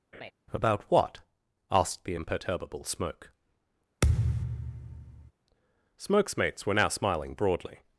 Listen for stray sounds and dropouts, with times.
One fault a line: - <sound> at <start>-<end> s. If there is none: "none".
- laugh at 0.1-0.3 s
- thud at 4.0-5.3 s